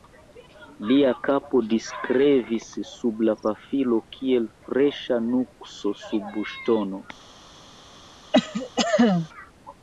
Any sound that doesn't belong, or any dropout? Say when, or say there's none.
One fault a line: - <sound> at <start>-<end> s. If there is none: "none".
- cough at 8.3-9.3 s